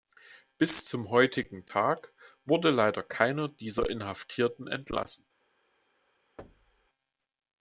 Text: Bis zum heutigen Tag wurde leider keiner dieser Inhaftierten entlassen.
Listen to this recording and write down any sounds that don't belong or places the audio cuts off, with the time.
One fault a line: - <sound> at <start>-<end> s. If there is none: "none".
- thud at 6.4-6.9 s